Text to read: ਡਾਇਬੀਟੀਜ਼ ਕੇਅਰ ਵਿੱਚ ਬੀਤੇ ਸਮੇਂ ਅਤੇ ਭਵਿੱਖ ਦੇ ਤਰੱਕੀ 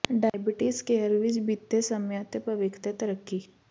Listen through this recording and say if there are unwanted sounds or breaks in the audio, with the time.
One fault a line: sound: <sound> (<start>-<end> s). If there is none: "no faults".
no faults